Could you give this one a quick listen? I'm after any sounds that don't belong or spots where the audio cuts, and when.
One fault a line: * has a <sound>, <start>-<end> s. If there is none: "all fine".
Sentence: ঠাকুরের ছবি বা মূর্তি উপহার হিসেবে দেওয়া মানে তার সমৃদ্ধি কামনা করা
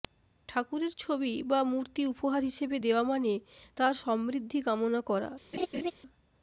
* has a laugh, 5.5-5.9 s